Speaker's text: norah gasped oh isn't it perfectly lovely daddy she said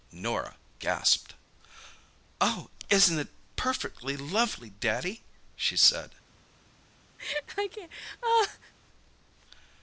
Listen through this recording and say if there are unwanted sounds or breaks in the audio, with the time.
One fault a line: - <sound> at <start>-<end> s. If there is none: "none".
- laugh at 7.2-8.7 s